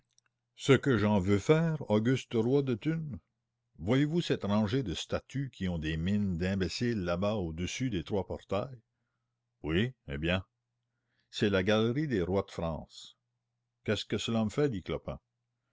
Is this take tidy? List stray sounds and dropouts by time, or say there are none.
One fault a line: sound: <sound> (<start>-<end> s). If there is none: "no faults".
no faults